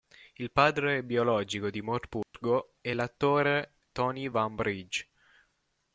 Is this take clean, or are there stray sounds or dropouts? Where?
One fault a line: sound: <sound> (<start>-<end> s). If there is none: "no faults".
sound: dropout (2.2-2.3 s)